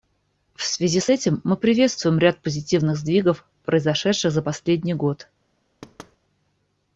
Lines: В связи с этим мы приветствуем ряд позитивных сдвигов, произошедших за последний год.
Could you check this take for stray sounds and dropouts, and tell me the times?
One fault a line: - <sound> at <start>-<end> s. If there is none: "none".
- thud at 5.8-6.2 s